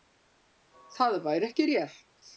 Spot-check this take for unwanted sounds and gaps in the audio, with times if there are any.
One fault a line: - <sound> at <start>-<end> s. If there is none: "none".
none